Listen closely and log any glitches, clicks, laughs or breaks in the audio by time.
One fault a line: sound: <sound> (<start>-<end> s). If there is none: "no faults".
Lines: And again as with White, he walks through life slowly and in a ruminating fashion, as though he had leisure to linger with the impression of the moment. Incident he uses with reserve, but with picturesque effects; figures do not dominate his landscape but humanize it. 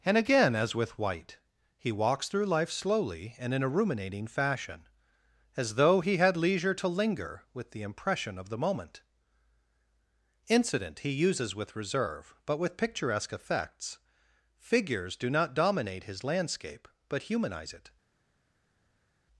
no faults